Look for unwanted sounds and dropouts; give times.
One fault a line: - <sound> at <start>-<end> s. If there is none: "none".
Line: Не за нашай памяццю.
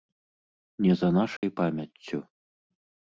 - dropout at 1.4-1.4 s